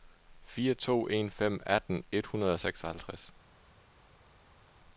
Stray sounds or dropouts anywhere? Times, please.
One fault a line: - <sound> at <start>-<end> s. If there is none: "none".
none